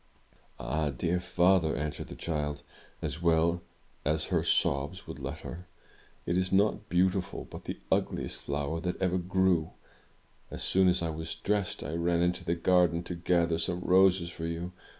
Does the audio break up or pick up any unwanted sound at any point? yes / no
no